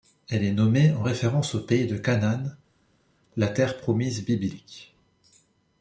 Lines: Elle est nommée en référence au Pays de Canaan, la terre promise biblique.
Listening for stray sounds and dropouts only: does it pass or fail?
pass